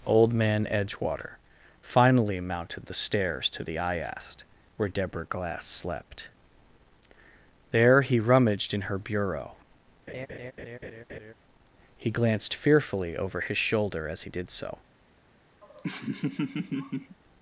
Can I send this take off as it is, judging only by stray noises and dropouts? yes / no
no